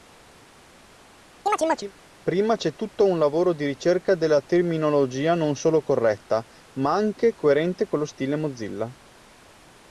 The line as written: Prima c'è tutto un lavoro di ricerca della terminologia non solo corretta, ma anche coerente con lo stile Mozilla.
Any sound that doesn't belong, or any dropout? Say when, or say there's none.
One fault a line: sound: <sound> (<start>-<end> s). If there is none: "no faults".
sound: chirp (1.5-1.9 s)